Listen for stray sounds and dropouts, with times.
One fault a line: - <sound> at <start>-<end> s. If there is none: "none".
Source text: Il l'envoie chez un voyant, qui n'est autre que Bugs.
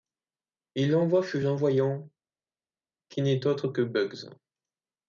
none